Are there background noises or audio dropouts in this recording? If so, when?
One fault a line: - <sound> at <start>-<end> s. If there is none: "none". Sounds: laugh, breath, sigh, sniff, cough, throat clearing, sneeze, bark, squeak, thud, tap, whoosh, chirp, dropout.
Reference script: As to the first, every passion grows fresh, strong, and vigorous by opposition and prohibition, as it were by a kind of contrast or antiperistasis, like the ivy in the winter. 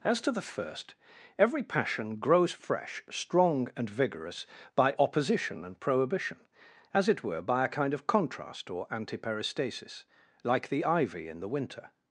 none